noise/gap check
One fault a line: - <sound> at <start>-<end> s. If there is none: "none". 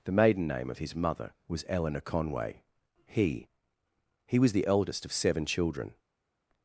none